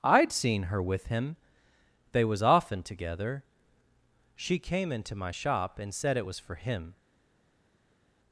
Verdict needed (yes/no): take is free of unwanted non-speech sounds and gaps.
yes